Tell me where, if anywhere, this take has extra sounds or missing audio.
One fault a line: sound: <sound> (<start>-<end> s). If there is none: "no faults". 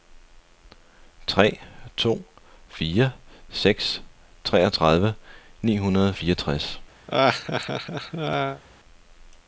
sound: laugh (7.1-8.6 s)